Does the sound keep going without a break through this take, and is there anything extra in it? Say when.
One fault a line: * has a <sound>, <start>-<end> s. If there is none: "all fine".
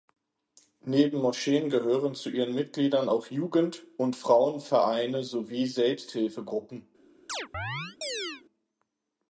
* has a chirp, 7.3-8.4 s